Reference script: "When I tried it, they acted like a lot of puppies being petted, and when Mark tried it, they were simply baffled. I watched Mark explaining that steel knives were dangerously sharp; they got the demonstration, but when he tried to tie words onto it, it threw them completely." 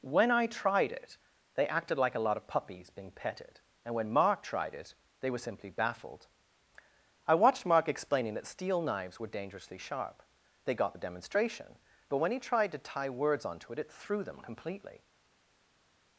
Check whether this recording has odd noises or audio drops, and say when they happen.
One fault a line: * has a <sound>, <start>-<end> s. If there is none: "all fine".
all fine